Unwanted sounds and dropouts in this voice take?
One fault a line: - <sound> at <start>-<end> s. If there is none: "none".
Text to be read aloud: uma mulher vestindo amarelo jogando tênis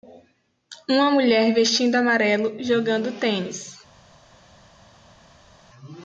none